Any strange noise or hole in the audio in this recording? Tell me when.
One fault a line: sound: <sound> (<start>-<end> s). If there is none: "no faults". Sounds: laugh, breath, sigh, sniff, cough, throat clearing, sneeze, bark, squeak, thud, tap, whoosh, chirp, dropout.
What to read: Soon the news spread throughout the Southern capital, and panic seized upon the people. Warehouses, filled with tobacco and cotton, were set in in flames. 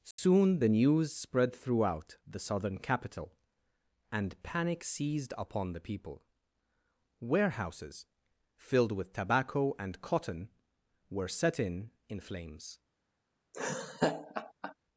sound: dropout (0.1-0.2 s)
sound: laugh (13.5-14.7 s)